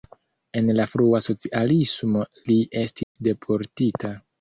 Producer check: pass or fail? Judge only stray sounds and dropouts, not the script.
fail